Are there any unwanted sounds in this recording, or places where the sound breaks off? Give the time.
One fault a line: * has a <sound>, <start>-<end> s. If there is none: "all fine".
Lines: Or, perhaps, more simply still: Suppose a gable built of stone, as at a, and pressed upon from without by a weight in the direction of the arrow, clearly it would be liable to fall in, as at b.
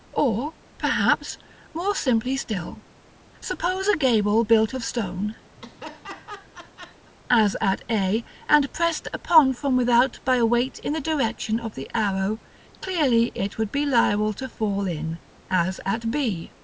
* has a laugh, 5.6-7.1 s